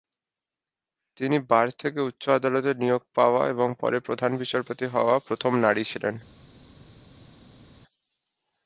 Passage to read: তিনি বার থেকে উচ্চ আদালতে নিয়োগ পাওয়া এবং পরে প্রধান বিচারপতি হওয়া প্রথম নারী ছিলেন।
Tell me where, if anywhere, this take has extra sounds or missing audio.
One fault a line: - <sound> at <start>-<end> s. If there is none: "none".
none